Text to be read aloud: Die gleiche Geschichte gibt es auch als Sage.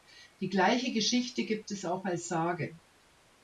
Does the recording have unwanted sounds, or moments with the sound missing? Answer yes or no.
no